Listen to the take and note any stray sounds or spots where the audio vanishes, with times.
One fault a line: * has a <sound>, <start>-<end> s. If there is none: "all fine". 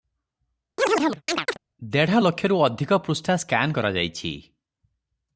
* has a chirp, 0.8-1.6 s